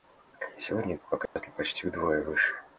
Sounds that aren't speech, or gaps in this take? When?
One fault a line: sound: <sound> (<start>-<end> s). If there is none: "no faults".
sound: dropout (1.3-1.4 s)